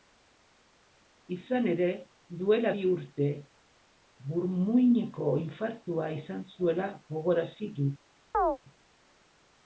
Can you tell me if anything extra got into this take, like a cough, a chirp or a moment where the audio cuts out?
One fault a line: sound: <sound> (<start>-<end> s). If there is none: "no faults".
sound: chirp (8.3-8.6 s)